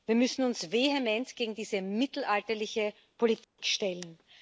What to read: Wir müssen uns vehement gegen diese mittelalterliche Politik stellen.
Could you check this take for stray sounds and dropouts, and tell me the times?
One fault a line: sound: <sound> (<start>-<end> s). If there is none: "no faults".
sound: dropout (3.4-3.6 s)